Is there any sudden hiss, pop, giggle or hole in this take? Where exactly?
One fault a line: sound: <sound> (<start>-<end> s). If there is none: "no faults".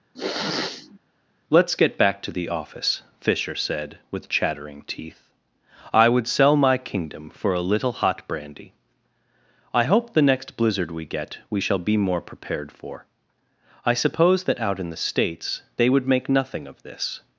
sound: sniff (0.1-1.0 s)